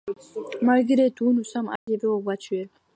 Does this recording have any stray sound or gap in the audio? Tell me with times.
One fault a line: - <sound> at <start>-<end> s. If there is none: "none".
- dropout at 1.8-1.9 s